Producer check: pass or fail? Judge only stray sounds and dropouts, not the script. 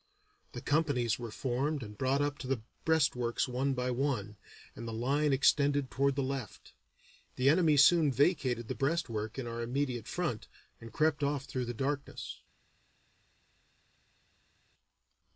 pass